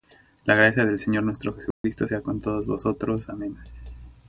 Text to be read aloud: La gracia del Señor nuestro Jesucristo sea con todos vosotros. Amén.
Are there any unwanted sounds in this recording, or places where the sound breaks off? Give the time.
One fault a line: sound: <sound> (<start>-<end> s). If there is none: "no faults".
sound: dropout (1.7-1.8 s)